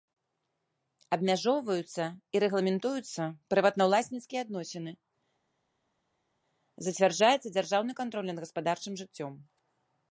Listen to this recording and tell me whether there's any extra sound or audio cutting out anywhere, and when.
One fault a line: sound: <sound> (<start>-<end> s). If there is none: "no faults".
no faults